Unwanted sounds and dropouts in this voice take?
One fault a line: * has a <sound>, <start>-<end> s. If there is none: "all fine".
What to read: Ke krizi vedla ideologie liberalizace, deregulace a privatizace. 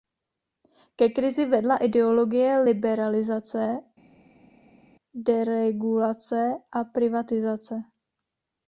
all fine